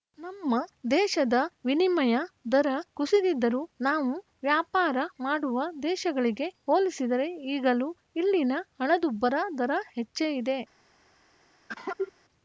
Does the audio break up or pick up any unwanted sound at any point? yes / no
yes